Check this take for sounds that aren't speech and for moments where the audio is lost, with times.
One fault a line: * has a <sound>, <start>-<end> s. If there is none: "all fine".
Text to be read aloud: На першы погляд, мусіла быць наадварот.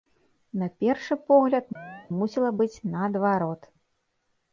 * has a chirp, 1.8-2.1 s